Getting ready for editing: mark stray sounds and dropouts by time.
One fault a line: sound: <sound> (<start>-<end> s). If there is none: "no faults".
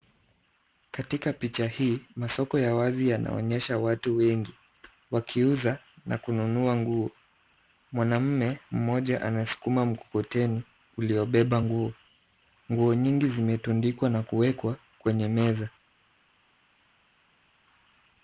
no faults